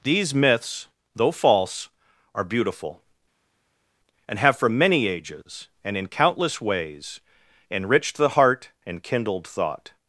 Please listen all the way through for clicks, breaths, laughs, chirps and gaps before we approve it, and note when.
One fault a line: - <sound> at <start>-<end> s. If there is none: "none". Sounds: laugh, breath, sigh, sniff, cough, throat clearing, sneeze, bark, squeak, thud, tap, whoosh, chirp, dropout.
none